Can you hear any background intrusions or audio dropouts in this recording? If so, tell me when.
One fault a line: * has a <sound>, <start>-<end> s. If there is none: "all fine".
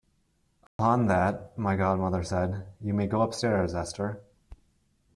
* has a dropout, 0.7-0.8 s